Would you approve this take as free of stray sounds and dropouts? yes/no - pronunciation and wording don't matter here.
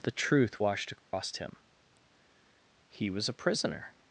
no